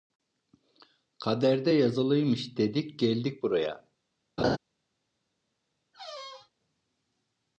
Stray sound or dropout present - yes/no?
yes